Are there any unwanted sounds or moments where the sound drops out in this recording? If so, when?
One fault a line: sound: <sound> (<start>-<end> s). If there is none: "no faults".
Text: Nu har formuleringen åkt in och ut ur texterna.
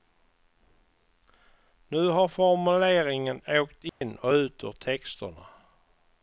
sound: dropout (3.9-4.0 s)